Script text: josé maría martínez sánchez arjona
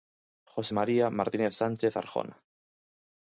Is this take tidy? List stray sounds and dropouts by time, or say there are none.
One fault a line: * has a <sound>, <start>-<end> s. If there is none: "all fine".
all fine